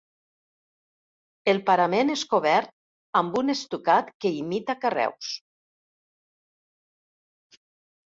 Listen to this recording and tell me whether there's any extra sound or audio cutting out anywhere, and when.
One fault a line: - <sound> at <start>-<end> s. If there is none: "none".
none